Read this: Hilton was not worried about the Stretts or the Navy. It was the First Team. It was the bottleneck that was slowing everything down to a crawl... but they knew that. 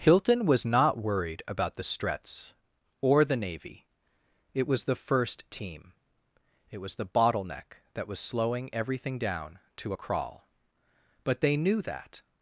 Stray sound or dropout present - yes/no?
no